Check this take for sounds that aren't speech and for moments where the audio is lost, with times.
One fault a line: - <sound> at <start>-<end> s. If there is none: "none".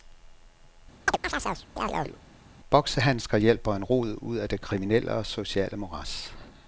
- chirp at 1.1-2.2 s